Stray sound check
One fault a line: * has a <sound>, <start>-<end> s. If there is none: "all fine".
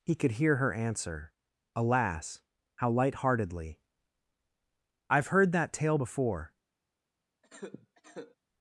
* has a cough, 7.4-8.4 s